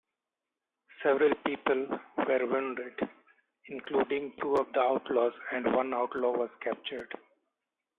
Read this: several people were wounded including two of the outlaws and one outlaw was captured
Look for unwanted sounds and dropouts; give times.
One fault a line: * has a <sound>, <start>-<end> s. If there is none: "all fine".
all fine